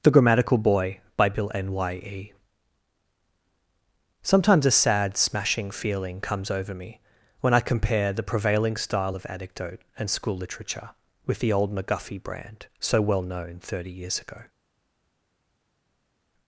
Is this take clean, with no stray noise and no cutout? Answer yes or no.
yes